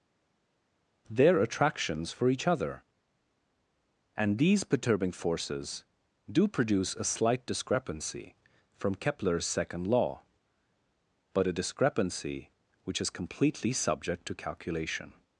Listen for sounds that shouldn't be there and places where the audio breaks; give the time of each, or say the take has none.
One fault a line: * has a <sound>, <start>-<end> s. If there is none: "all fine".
all fine